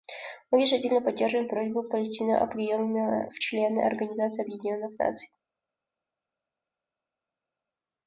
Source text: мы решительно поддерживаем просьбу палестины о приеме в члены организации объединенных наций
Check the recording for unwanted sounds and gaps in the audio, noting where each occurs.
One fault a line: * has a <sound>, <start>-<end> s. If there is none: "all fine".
all fine